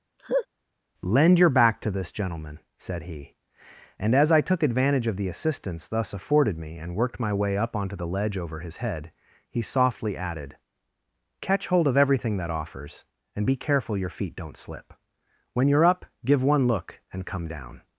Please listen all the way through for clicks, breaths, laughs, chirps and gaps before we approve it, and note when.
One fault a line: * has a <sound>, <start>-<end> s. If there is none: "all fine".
* has a laugh, 0.2-0.5 s